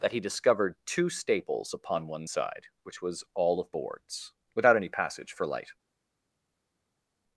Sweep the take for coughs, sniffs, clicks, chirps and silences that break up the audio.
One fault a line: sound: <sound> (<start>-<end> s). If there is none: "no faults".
no faults